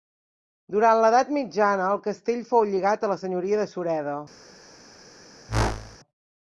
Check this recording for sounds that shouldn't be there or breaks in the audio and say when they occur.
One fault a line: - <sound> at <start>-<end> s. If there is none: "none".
- whoosh at 5.5-6.0 s